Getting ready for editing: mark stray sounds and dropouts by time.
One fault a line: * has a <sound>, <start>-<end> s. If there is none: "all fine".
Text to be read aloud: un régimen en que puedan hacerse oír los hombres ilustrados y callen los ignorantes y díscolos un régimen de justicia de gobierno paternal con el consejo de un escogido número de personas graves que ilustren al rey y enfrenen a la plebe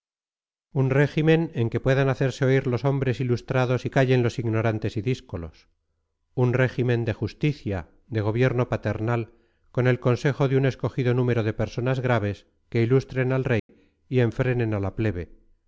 * has a dropout, 13.6-13.7 s